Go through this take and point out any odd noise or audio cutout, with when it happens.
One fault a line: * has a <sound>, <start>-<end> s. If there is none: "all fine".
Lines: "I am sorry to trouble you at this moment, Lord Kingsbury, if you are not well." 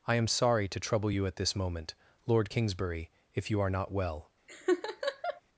* has a laugh, 4.5-5.4 s